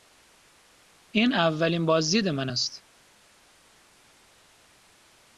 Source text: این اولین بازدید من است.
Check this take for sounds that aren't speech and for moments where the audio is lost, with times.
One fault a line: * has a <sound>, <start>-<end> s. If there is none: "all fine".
all fine